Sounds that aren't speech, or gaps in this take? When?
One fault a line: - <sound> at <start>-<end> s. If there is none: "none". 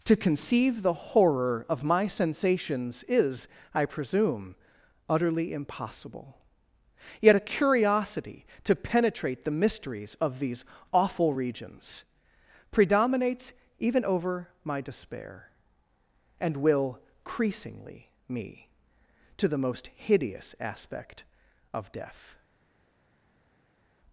none